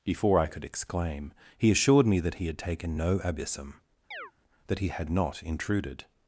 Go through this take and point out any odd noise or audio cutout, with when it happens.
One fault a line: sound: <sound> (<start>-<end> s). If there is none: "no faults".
sound: chirp (4.1-4.3 s)